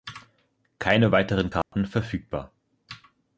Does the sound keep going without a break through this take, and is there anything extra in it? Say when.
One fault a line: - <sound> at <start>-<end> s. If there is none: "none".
- dropout at 1.6-1.7 s